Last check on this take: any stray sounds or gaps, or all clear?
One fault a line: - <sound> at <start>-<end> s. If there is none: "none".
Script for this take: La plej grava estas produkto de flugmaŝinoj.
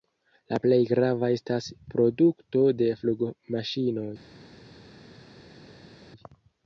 none